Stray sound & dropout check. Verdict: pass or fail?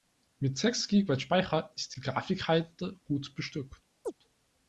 fail